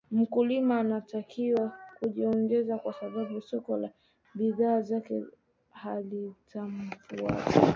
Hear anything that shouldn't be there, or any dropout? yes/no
no